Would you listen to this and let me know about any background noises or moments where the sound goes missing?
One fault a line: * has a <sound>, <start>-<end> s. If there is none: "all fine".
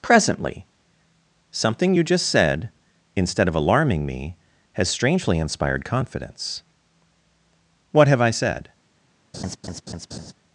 * has a laugh, 9.3-10.3 s